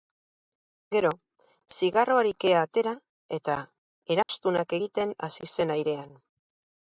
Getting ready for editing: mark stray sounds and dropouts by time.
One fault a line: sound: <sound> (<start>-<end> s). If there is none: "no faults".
sound: dropout (4.2-4.3 s)